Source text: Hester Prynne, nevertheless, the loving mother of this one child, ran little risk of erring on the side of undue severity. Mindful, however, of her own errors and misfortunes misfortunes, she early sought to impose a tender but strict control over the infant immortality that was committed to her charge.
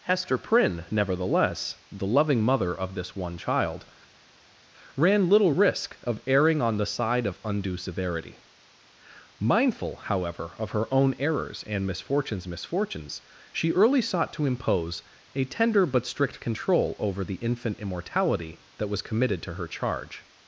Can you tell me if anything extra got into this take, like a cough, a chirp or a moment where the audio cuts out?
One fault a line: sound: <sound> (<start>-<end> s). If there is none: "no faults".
no faults